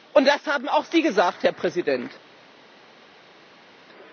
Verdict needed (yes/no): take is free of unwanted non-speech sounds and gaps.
yes